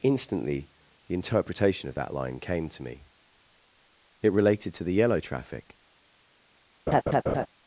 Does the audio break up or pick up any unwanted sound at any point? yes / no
yes